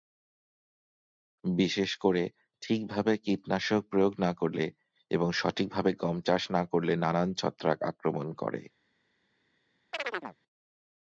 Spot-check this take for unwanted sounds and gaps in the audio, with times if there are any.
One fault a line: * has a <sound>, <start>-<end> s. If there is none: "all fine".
* has a chirp, 9.9-10.4 s